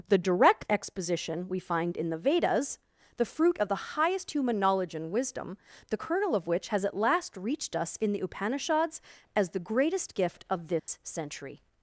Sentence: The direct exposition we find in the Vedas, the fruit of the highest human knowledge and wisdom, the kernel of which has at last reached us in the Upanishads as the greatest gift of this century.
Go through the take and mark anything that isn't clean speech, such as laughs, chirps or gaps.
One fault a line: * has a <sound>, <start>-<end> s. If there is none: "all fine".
* has a dropout, 10.8-10.9 s